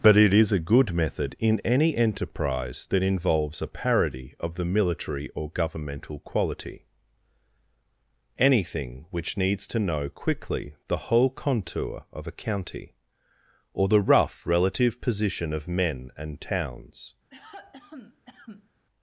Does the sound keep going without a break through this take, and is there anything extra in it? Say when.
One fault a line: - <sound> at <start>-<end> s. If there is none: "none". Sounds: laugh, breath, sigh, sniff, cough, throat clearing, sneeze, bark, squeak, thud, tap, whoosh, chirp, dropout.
- cough at 17.3-18.7 s